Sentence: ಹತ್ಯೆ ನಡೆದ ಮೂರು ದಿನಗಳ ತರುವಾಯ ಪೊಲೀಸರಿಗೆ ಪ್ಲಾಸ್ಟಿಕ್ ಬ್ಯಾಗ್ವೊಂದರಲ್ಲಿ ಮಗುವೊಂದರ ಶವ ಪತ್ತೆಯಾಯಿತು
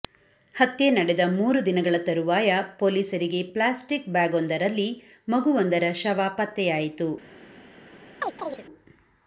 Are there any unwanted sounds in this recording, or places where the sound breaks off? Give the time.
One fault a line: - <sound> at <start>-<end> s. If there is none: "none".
- chirp at 8.2-8.6 s